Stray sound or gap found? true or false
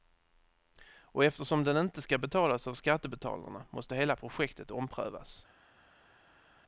false